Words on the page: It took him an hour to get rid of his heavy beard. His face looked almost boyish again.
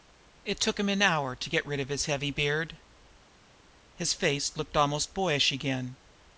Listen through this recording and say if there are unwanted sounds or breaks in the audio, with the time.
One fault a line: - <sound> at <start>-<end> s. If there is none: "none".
none